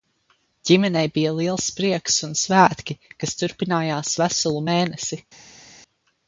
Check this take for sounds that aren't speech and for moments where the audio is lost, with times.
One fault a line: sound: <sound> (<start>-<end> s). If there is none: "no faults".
no faults